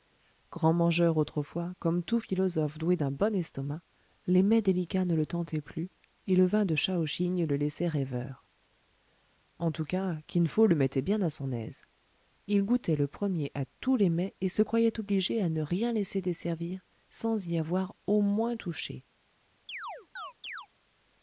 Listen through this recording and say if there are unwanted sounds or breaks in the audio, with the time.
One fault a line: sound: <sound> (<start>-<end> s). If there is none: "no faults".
sound: chirp (19.7-20.7 s)